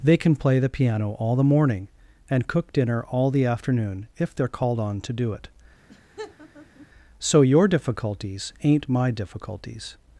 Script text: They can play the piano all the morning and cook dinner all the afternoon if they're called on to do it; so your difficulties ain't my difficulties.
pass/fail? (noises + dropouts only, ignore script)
fail